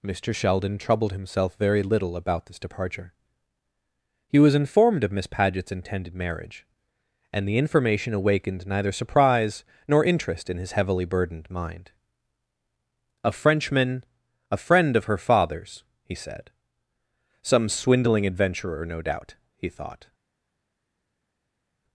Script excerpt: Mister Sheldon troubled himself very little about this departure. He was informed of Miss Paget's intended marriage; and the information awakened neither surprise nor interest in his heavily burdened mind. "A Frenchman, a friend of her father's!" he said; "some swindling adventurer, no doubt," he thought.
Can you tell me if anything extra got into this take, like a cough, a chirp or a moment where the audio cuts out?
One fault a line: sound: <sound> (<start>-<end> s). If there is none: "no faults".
no faults